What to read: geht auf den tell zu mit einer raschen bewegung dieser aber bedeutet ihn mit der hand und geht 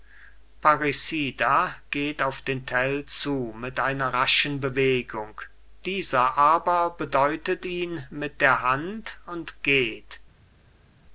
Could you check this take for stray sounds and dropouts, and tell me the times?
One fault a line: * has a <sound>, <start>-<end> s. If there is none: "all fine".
all fine